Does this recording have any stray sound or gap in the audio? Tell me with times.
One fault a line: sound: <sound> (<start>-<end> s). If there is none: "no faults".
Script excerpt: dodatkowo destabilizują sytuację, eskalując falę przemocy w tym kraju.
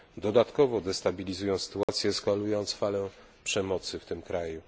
sound: dropout (1.8-1.9 s)